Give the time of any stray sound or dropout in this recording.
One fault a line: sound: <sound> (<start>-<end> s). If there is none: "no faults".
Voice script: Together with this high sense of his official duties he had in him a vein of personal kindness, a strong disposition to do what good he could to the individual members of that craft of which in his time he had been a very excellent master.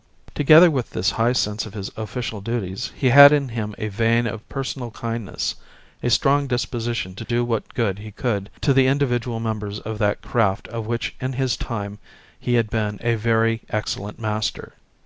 sound: dropout (7.2-7.3 s)